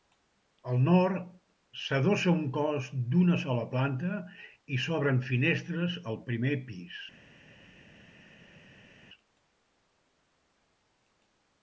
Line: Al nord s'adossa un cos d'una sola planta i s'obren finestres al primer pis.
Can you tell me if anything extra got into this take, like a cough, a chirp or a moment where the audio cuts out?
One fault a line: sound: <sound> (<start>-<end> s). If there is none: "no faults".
no faults